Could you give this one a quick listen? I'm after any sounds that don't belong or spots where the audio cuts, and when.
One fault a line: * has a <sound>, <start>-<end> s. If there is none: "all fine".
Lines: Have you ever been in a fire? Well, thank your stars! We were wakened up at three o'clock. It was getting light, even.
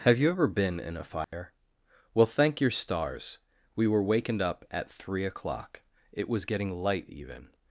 * has a dropout, 1.2-1.3 s